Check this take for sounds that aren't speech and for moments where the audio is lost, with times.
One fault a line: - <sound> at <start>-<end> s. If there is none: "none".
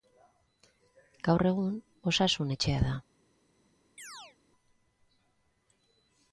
- chirp at 4.0-4.4 s